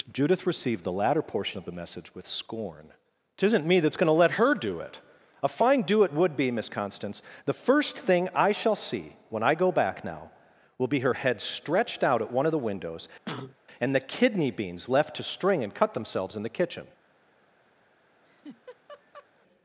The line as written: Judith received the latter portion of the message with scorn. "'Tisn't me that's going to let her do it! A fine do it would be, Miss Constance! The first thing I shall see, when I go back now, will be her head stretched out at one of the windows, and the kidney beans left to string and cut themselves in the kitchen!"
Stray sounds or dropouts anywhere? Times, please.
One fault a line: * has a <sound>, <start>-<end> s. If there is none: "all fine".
* has a cough, 13.3-13.6 s
* has a laugh, 18.2-19.3 s